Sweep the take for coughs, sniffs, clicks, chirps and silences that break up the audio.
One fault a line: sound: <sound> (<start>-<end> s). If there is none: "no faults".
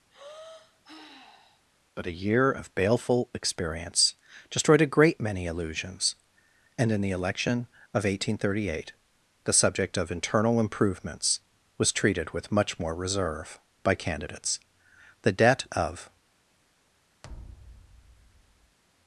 sound: sigh (0.1-1.7 s)
sound: thud (17.2-18.8 s)